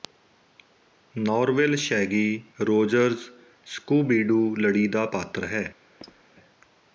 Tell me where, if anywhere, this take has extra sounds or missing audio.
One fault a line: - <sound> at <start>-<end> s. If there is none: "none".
- squeak at 6.0-6.2 s